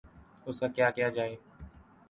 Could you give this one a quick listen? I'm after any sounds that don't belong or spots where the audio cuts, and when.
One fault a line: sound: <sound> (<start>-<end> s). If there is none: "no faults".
no faults